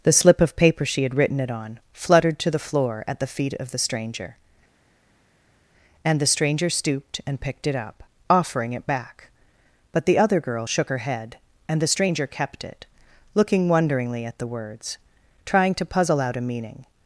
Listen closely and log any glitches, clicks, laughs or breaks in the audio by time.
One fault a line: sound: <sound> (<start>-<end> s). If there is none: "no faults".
no faults